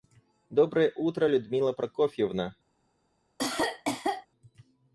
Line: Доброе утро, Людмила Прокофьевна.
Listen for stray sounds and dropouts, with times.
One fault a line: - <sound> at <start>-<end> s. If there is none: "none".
- cough at 3.4-4.3 s